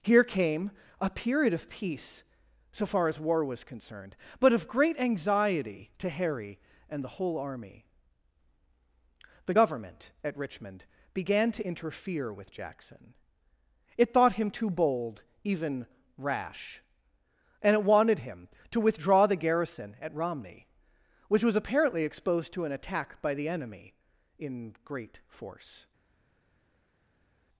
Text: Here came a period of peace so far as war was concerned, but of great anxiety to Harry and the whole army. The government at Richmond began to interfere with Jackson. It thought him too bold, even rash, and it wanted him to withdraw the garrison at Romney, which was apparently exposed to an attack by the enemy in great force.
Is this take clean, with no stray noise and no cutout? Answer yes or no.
yes